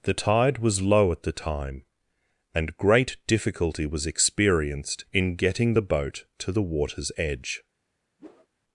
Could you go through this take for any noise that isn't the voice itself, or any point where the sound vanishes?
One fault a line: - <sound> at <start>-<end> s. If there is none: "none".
- whoosh at 8.2-8.5 s